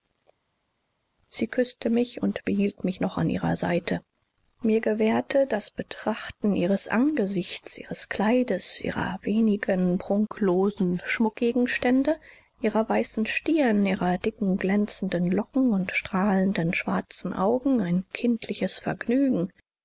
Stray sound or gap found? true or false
false